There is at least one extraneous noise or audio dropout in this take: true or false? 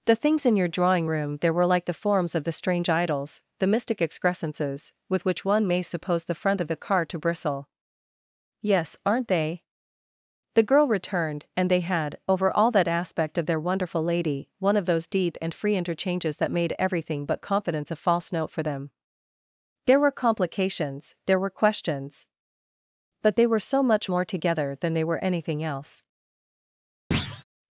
true